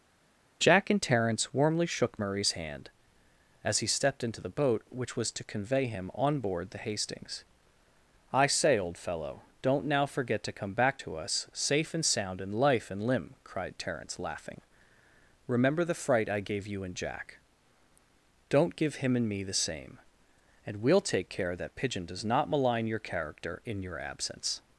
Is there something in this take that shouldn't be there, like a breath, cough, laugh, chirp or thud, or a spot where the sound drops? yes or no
no